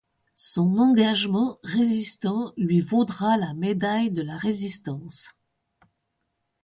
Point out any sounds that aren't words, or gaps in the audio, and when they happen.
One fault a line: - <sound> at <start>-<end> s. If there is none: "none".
none